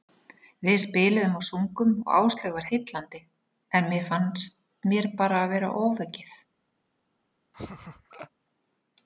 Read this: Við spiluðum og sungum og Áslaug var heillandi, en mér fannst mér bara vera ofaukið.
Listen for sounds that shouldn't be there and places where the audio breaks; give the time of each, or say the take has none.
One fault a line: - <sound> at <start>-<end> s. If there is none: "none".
- laugh at 7.5-8.3 s